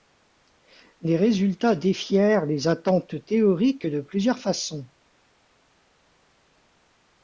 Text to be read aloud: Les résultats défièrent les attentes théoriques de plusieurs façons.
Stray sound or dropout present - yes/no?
no